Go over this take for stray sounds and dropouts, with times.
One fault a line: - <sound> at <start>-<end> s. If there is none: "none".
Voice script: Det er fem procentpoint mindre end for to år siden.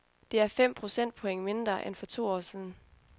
none